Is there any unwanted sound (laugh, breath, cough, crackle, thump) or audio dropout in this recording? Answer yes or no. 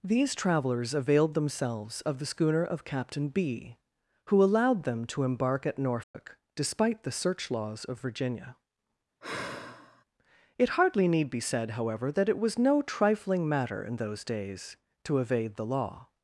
yes